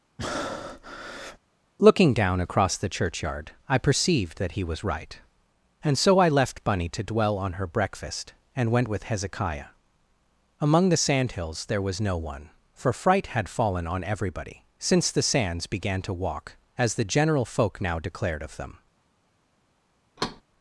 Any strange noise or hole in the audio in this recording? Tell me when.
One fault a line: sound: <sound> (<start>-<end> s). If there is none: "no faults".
sound: breath (0.2-1.4 s)
sound: thud (20.2-20.4 s)